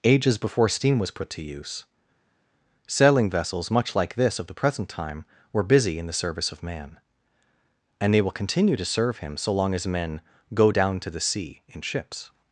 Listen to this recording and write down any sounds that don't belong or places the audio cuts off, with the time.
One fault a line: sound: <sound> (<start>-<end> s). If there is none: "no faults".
no faults